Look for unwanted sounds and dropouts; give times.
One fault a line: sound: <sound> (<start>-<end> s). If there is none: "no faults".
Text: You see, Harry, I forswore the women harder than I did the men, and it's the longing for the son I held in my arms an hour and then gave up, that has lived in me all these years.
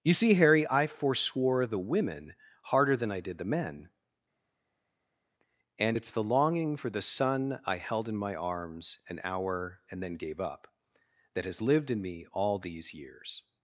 no faults